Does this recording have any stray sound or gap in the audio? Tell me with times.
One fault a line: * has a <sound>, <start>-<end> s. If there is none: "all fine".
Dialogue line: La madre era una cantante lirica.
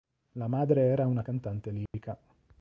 * has a dropout, 1.9-1.9 s